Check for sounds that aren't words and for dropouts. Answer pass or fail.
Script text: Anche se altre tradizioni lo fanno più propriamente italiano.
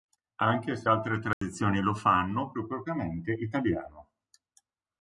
fail